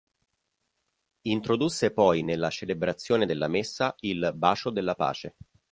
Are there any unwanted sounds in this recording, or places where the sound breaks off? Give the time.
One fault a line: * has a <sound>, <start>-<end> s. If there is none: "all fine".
all fine